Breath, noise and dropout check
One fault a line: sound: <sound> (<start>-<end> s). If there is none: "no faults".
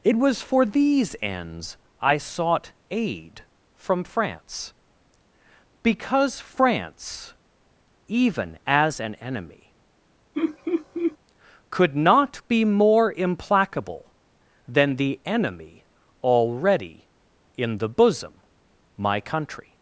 sound: laugh (10.3-11.2 s)